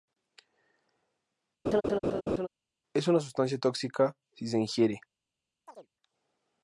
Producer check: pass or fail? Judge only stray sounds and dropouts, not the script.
fail